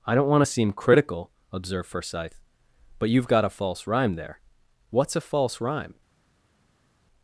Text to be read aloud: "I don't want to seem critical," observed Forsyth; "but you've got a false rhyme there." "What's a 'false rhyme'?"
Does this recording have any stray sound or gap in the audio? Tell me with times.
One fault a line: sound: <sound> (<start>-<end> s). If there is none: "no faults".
no faults